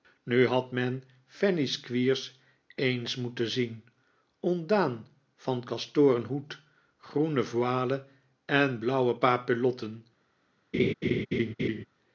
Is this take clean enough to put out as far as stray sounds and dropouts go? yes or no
no